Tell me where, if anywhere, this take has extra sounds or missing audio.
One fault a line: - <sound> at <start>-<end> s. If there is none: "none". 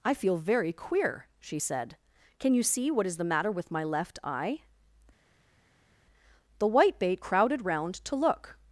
none